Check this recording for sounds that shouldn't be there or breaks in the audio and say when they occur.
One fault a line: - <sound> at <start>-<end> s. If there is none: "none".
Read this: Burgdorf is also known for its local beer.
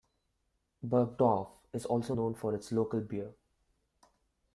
none